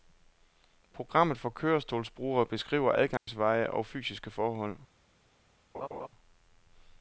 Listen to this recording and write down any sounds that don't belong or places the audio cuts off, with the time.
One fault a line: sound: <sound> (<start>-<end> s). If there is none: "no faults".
sound: dropout (3.2-3.3 s)
sound: laugh (5.7-6.1 s)